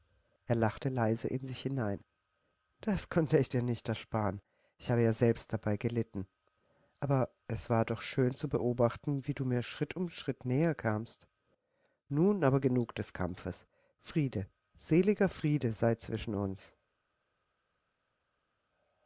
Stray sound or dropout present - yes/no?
no